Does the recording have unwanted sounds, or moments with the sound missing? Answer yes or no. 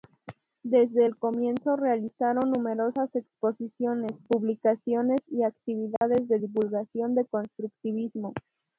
yes